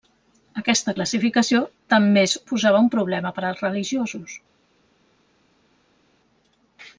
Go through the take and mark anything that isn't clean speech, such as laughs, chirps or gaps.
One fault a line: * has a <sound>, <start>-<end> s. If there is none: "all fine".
all fine